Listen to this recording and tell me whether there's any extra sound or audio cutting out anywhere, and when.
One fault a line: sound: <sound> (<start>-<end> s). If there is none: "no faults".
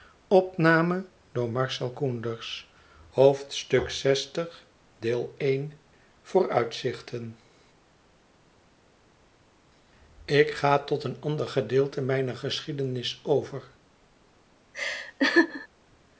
sound: laugh (14.7-15.7 s)